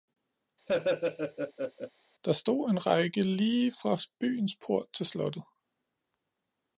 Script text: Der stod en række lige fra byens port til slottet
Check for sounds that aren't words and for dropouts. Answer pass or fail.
fail